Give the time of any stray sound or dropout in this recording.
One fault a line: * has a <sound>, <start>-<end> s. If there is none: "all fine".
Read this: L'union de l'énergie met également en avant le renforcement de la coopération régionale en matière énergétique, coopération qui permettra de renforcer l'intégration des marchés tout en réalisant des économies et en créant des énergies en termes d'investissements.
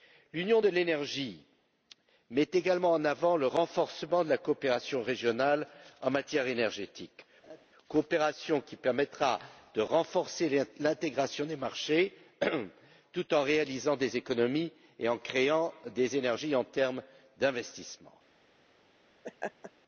* has a laugh, 7.4-7.7 s
* has a laugh, 19.2-19.7 s